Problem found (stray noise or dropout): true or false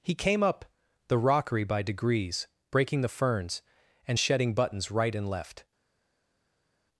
false